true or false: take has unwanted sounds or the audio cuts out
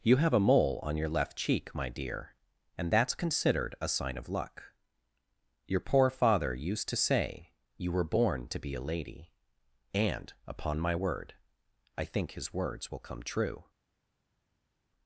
false